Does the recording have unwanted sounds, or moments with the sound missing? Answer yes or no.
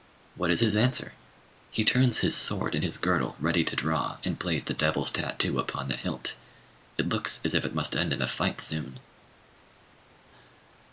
no